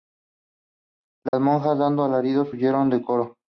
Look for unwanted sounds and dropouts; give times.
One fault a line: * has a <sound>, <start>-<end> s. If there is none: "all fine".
* has a dropout, 1.3-1.3 s